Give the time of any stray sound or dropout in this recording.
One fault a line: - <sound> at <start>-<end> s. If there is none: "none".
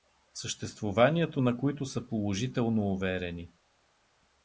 none